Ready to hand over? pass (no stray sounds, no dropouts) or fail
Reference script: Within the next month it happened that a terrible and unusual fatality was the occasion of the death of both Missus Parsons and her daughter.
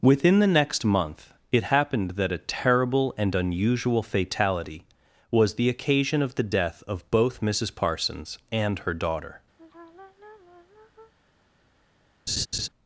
fail